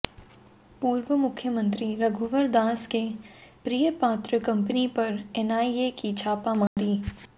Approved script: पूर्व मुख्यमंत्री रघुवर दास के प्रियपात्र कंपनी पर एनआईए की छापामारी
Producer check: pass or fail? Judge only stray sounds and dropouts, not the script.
fail